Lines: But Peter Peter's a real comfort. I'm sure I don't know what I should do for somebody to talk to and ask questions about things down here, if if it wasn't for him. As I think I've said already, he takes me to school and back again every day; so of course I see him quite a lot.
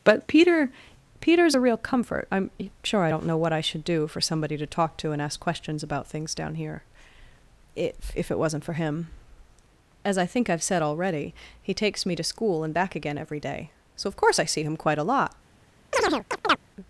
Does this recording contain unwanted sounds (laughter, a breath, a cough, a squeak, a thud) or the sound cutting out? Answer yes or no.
yes